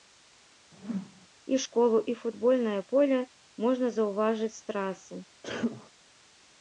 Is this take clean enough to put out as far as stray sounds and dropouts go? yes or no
no